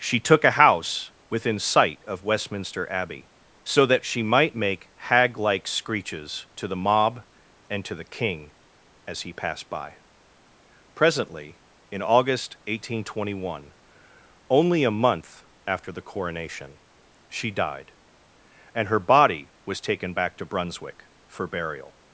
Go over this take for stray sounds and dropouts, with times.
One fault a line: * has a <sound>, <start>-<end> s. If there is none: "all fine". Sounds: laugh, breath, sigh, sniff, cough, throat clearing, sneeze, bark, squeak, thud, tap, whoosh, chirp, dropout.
all fine